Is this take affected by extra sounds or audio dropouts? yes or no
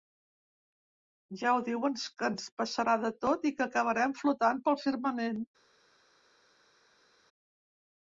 no